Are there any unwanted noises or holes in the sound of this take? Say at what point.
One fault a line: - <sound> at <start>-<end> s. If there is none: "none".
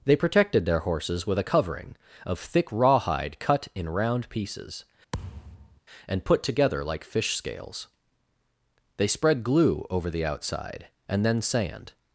- thud at 5.1-5.8 s